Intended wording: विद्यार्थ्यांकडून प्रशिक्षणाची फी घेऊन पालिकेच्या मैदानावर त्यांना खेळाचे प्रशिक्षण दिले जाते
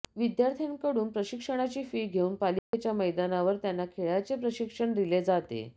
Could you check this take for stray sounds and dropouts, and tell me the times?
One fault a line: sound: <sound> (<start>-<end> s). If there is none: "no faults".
sound: dropout (2.6-2.7 s)